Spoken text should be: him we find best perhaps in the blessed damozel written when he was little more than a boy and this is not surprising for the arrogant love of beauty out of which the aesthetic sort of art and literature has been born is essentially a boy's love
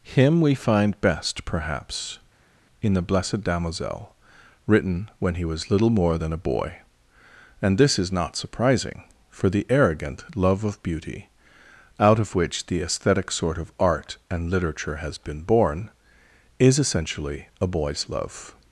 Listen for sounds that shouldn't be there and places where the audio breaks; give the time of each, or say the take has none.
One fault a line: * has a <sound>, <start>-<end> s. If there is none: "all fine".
all fine